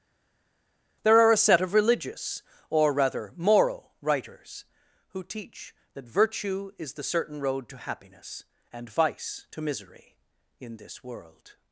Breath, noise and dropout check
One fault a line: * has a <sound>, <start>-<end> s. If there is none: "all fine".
all fine